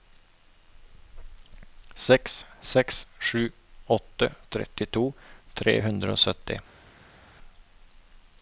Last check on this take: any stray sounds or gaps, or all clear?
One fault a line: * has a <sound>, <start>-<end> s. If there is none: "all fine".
all fine